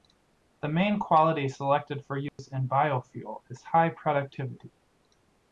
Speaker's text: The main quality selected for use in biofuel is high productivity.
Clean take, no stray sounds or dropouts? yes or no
no